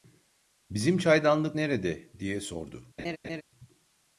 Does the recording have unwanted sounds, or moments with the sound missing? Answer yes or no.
yes